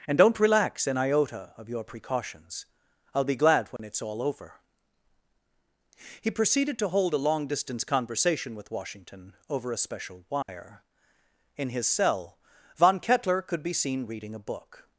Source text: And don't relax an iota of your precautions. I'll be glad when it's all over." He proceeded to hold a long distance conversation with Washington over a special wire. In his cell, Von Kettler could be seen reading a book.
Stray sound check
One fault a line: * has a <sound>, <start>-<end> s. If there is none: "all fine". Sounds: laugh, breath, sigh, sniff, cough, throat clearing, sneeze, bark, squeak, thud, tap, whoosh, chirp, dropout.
* has a dropout, 3.8-3.8 s
* has a dropout, 10.4-10.5 s